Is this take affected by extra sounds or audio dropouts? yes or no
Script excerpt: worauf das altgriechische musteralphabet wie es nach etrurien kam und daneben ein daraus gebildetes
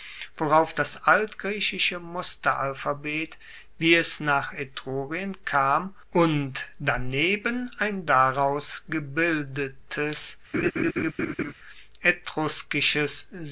yes